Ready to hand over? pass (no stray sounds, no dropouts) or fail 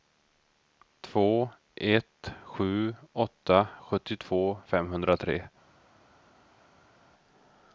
pass